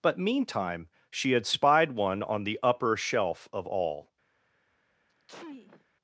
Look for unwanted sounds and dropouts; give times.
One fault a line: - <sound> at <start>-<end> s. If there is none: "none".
- sneeze at 5.1-5.8 s